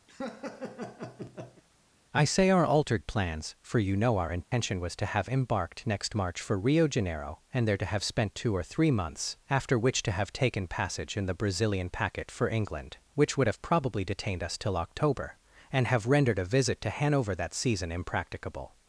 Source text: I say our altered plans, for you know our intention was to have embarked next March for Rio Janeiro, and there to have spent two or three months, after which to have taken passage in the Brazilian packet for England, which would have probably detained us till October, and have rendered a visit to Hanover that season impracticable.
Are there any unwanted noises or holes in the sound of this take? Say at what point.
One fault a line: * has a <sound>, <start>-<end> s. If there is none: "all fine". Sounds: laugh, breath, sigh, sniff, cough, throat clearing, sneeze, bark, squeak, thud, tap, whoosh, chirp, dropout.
* has a laugh, 0.1-1.6 s
* has a dropout, 4.4-4.5 s